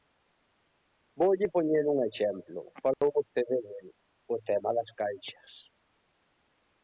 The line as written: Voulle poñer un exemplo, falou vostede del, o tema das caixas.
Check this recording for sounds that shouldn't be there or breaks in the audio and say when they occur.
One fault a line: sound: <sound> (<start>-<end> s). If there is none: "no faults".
sound: dropout (2.9-3.0 s)